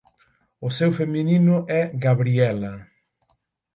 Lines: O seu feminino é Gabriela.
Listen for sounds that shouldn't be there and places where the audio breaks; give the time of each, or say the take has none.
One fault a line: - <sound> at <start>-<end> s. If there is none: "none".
none